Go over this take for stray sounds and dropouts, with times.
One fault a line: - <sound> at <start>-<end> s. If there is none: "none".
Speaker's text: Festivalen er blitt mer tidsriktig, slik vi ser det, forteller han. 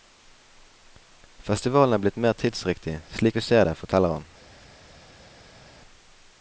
none